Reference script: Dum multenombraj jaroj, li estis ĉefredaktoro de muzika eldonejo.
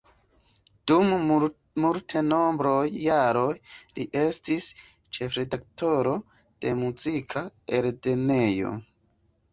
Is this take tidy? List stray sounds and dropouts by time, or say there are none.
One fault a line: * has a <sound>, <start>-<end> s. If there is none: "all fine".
all fine